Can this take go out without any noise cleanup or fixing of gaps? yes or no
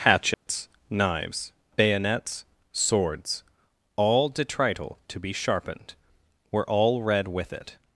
no